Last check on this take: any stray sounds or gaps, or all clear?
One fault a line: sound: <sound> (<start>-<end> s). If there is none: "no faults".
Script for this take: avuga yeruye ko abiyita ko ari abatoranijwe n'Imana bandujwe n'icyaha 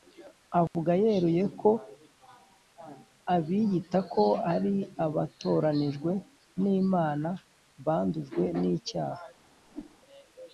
sound: dropout (0.7-0.7 s)
sound: whoosh (9.7-10.0 s)